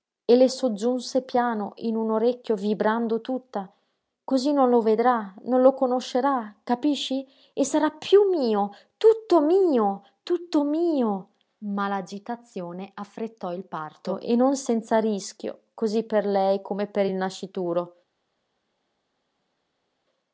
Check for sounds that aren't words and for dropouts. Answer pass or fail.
pass